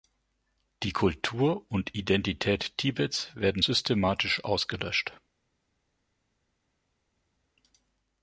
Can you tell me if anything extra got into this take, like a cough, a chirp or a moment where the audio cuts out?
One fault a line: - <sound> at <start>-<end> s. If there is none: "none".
none